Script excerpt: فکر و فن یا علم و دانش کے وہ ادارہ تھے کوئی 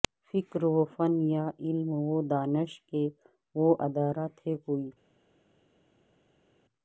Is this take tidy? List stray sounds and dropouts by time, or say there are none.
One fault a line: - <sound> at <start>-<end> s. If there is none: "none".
none